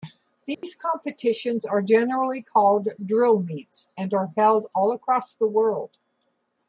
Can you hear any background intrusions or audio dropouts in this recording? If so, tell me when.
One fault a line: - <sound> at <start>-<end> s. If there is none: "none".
- dropout at 0.5-0.6 s